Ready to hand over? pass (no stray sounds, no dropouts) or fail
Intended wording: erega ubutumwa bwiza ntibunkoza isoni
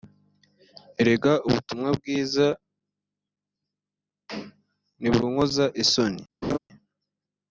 fail